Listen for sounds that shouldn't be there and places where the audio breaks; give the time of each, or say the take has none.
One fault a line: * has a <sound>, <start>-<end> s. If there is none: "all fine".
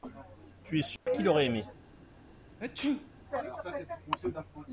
* has a dropout, 1.0-1.1 s
* has a sneeze, 2.6-3.1 s